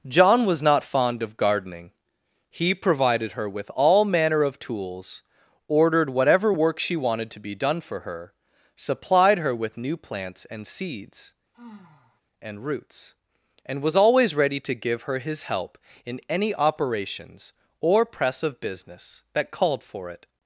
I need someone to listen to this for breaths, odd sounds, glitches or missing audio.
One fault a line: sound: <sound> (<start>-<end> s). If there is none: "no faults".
sound: sigh (11.5-12.2 s)